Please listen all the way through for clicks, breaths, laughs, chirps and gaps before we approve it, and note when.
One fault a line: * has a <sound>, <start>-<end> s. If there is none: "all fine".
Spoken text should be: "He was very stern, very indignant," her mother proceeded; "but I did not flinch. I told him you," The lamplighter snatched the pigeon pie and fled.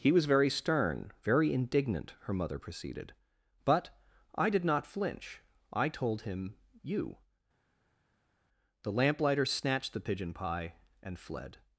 all fine